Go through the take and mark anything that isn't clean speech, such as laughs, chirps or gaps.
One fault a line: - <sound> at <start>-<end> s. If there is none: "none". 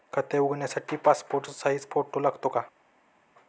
none